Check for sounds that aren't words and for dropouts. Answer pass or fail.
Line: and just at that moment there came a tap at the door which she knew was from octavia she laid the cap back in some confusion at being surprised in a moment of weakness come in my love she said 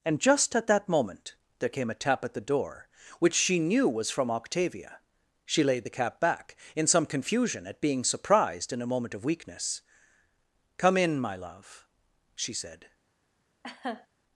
fail